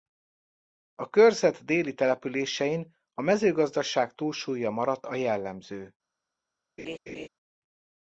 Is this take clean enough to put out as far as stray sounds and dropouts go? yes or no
no